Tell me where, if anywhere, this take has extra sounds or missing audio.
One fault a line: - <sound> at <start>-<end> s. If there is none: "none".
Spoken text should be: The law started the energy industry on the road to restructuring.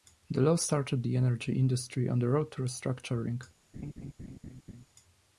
- laugh at 3.7-4.9 s